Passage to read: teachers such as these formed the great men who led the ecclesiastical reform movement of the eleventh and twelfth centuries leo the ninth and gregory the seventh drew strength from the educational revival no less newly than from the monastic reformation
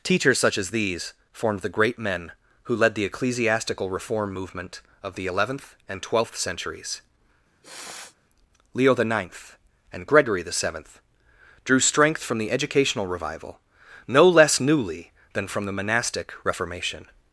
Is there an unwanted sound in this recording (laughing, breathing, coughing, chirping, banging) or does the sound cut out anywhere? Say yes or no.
yes